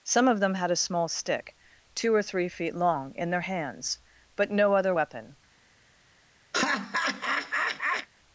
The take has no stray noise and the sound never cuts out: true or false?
false